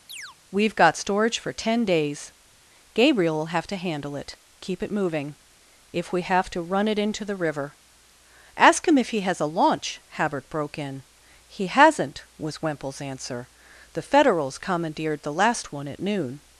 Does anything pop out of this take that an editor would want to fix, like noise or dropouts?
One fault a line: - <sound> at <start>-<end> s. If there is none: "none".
- chirp at 0.1-0.4 s